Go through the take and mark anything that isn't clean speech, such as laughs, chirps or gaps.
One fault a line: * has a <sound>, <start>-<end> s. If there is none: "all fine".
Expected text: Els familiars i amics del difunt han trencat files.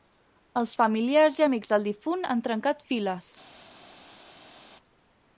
all fine